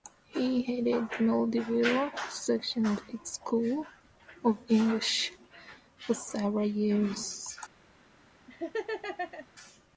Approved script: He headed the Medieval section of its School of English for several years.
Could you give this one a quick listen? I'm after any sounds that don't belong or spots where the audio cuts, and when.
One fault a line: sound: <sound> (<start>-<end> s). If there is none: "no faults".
sound: laugh (8.5-9.5 s)